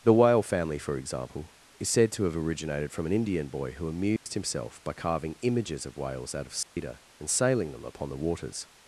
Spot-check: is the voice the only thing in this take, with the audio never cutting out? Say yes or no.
no